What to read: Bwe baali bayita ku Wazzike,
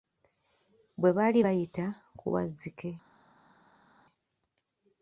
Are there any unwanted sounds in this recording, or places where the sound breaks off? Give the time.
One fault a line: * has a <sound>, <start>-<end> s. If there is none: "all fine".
all fine